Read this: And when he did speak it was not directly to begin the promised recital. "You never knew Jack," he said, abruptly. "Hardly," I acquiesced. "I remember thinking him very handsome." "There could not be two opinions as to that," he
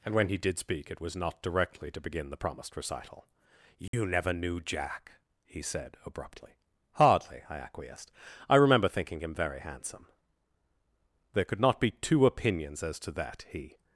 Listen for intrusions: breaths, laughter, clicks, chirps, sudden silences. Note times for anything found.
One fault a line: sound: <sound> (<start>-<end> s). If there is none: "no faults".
sound: dropout (3.9-3.9 s)